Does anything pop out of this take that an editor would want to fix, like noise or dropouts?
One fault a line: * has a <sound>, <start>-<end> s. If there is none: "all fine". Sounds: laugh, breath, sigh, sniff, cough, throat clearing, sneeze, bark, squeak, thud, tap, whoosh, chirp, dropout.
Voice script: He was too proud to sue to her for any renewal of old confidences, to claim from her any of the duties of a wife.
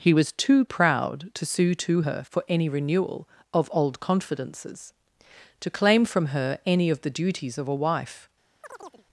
* has a chirp, 8.6-9.1 s